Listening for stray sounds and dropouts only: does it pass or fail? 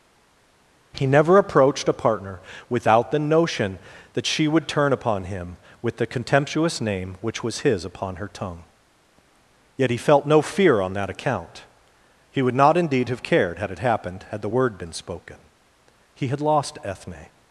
pass